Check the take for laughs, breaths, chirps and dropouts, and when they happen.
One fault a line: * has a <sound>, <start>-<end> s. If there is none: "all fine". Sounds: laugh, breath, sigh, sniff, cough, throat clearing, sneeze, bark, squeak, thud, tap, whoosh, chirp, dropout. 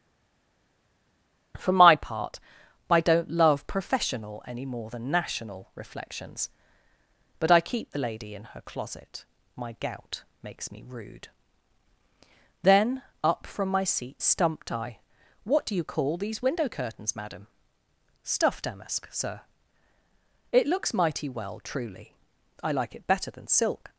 all fine